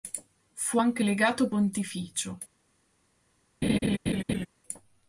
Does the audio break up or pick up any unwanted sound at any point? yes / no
yes